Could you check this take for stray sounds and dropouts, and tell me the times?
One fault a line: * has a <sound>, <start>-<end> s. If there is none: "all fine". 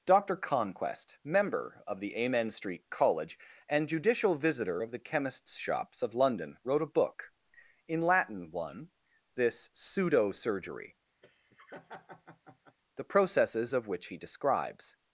* has a laugh, 11.2-12.8 s